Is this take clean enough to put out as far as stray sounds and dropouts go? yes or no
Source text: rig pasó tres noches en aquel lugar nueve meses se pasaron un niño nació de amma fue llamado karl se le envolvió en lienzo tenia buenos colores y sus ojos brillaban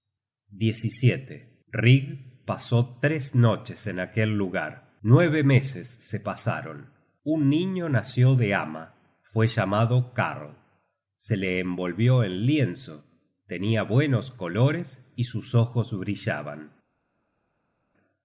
yes